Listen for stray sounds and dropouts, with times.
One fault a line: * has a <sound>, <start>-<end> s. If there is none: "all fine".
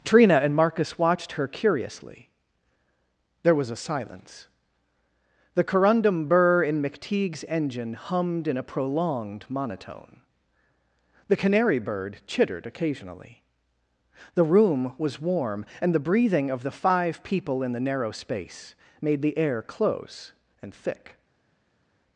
all fine